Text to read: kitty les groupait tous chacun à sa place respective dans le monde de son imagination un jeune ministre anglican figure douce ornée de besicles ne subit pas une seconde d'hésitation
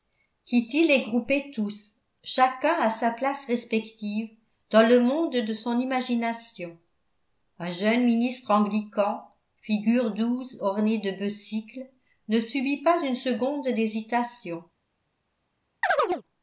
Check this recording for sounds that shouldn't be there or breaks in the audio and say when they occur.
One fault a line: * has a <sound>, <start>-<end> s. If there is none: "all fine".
* has a chirp, 15.8-16.2 s